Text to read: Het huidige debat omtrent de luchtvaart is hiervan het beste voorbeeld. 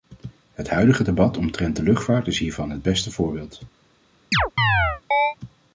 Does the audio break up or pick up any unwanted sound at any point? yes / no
yes